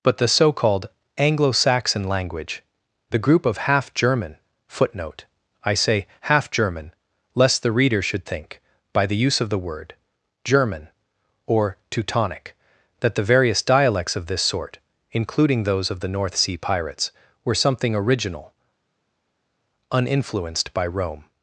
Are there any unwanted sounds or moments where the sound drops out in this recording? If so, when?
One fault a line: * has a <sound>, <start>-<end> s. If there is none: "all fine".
all fine